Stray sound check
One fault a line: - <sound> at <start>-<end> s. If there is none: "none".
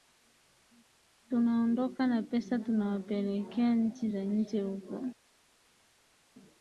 none